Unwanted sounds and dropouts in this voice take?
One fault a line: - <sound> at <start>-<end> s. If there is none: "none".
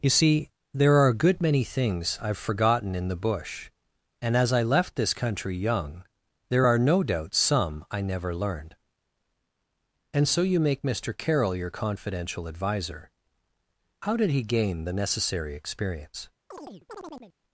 - chirp at 16.5-17.3 s